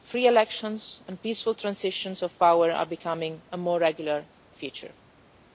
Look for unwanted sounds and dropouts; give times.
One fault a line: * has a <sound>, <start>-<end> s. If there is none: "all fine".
all fine